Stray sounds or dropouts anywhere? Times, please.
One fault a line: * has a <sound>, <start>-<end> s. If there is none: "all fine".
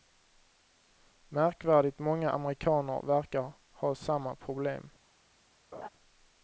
* has a laugh, 5.7-5.9 s